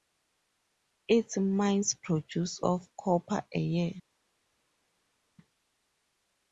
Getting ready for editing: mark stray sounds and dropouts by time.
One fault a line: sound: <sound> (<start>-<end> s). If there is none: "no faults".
no faults